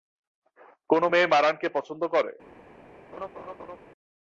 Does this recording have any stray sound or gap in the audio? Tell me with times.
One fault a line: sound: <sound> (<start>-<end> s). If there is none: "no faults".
sound: laugh (3.1-3.8 s)